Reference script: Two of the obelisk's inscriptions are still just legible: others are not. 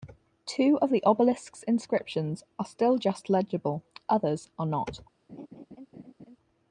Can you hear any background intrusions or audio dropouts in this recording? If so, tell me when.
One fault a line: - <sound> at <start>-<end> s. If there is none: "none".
- laugh at 5.3-6.4 s